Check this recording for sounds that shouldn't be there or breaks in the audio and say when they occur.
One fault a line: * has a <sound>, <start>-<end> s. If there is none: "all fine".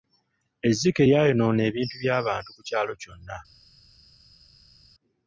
all fine